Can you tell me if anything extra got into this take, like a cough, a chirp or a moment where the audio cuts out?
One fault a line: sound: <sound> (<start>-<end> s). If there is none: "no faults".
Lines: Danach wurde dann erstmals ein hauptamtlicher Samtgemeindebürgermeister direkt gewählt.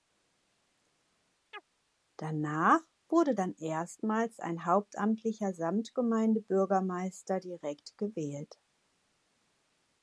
sound: chirp (1.5-1.7 s)